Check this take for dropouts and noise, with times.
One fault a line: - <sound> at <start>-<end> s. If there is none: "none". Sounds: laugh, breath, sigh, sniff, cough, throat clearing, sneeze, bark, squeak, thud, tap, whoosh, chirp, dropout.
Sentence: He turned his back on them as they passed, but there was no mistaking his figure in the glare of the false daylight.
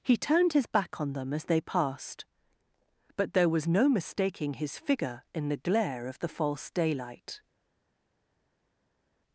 none